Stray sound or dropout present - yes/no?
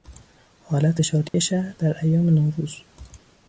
yes